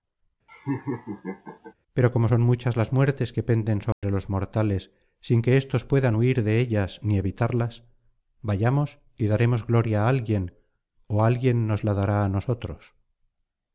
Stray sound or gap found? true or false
true